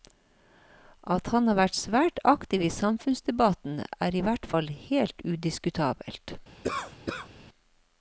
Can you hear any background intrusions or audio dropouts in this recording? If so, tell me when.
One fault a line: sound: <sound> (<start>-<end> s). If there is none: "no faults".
sound: cough (6.6-7.3 s)